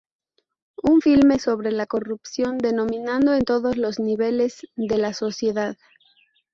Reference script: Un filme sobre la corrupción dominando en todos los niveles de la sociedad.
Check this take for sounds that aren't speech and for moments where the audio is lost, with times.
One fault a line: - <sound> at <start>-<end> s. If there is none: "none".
none